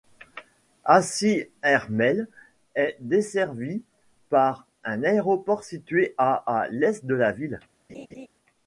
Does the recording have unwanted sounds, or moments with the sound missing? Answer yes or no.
yes